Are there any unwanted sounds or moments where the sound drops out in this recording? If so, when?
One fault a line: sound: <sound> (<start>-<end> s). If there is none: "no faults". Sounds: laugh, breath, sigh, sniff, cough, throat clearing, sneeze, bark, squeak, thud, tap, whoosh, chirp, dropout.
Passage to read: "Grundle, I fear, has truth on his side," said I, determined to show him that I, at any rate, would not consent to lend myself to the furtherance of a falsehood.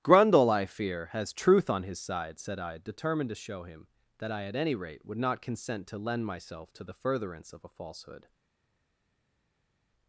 no faults